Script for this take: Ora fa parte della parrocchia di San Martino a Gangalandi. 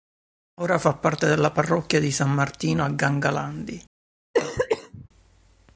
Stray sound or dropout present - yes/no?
yes